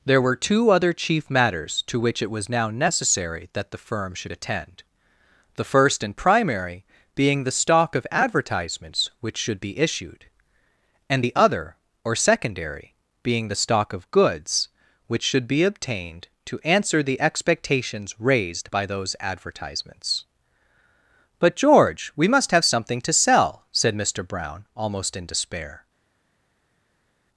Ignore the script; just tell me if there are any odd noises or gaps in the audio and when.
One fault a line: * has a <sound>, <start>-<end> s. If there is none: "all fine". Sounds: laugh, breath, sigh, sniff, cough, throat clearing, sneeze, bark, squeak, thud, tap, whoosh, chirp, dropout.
all fine